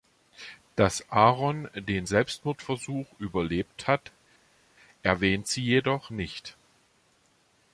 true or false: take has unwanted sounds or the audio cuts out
false